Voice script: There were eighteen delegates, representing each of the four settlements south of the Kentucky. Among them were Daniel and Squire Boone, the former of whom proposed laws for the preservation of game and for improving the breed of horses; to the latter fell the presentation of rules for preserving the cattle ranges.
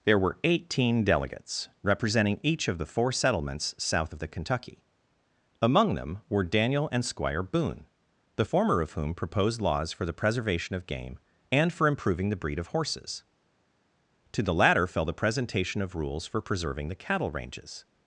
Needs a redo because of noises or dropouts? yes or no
no